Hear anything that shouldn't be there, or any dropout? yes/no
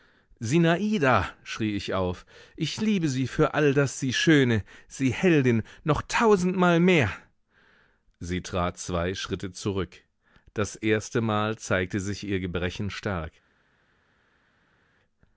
no